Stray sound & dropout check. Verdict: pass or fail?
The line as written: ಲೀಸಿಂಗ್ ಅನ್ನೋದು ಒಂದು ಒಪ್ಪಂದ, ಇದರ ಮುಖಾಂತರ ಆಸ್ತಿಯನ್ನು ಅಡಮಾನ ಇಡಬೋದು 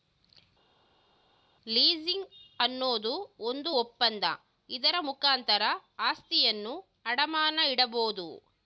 pass